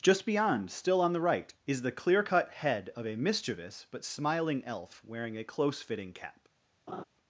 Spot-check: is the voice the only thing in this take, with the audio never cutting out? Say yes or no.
no